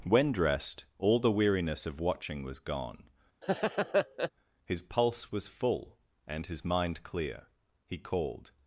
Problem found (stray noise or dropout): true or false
true